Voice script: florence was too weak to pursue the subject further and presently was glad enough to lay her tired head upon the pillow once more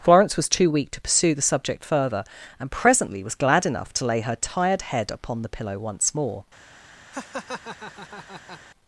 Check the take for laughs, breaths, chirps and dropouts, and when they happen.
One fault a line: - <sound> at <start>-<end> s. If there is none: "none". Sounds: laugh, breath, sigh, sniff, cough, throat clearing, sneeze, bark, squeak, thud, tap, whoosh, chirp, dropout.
- laugh at 7.1-8.6 s